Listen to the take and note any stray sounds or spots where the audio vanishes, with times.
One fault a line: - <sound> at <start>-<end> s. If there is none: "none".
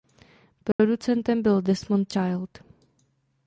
- dropout at 0.7-0.8 s